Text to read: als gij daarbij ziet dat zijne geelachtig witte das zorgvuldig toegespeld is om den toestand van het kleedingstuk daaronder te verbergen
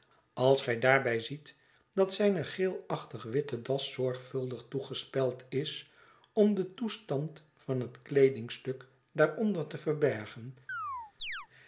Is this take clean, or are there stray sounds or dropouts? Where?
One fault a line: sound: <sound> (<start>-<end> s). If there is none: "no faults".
sound: chirp (10.7-11.5 s)